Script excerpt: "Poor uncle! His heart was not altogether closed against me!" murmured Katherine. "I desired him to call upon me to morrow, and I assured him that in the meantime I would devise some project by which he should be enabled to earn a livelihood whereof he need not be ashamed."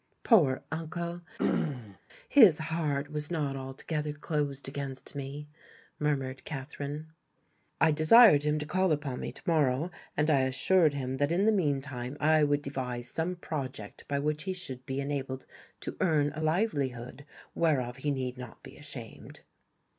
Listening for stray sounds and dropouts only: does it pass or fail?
fail